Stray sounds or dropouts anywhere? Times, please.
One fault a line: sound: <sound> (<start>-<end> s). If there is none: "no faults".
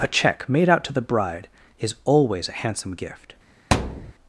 sound: thud (3.7-4.1 s)